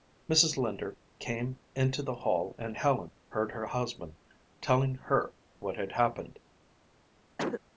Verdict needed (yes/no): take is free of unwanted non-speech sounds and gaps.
no